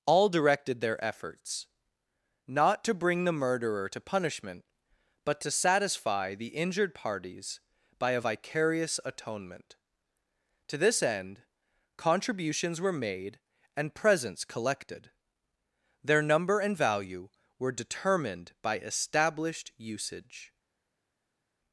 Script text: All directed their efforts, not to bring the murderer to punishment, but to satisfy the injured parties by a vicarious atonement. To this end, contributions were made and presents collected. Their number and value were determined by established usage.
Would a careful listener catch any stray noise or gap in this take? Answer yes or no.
no